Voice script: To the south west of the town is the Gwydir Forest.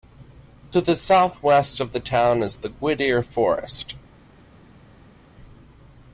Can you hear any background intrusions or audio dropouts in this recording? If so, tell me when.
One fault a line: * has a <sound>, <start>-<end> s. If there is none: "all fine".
all fine